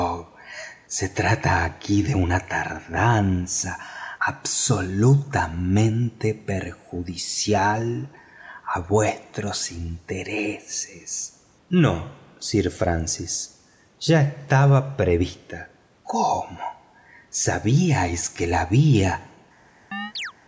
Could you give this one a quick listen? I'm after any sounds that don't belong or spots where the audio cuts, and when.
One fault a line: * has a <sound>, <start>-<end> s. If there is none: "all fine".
* has a chirp, 19.9-20.3 s